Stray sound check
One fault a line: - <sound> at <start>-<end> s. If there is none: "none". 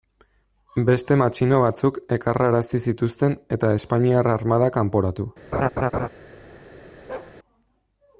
- laugh at 5.5-6.1 s
- bark at 7.1-7.4 s